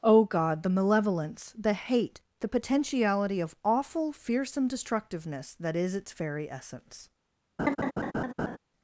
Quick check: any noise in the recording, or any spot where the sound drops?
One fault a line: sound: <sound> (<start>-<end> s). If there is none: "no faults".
sound: laugh (7.6-8.6 s)